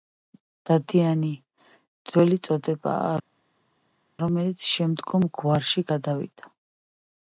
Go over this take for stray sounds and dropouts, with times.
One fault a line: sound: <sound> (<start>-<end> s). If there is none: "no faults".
no faults